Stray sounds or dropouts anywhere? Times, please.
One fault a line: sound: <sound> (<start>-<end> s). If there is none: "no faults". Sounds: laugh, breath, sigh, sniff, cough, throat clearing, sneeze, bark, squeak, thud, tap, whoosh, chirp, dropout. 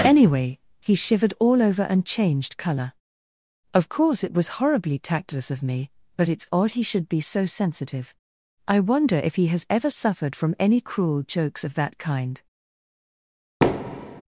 sound: thud (13.6-14.2 s)